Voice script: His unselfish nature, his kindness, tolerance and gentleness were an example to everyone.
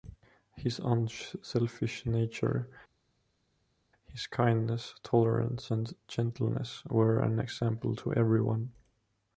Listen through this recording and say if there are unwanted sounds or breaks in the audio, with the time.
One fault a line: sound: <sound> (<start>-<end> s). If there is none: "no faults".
no faults